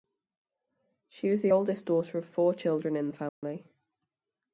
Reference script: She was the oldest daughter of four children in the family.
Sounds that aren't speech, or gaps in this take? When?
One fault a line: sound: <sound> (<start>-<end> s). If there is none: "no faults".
sound: dropout (3.3-3.4 s)